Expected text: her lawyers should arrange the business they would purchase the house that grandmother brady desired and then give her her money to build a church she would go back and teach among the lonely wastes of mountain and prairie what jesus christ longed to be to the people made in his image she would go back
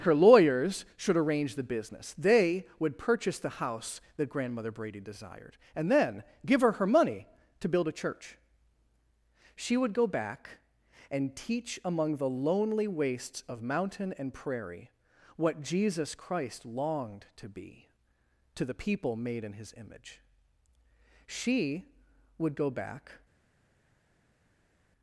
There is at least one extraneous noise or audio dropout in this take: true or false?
false